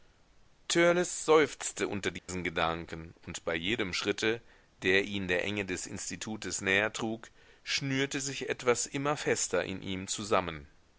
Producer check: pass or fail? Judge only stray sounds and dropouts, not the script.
fail